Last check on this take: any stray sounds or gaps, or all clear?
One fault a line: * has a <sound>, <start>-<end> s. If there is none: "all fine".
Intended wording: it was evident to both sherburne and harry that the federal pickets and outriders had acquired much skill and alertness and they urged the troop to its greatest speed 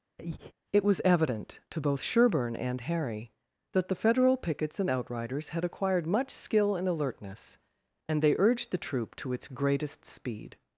* has a breath, 0.2-0.5 s